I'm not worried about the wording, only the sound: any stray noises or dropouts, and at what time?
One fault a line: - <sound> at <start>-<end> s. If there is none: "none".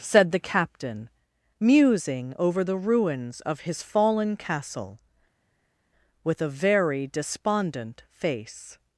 none